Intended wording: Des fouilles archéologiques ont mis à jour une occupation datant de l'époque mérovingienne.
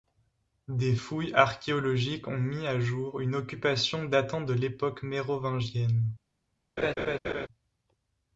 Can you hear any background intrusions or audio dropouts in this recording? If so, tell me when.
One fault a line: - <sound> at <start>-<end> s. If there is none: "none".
- laugh at 6.8-7.5 s